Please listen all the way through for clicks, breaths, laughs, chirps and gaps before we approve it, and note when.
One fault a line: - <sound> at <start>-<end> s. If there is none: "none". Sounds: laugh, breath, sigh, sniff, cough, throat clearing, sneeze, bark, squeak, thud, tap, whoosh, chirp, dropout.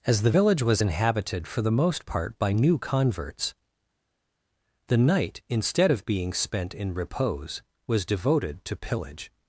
none